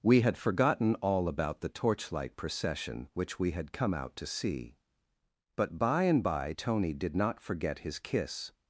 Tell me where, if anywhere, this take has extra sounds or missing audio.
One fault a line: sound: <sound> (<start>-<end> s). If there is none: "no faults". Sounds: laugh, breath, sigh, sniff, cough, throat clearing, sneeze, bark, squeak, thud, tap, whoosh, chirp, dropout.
no faults